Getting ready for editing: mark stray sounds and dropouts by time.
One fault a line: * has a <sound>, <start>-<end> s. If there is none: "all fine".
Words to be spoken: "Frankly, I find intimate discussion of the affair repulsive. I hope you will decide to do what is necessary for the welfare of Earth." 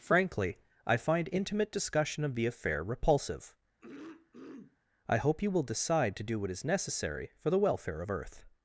* has a throat clearing, 3.8-4.8 s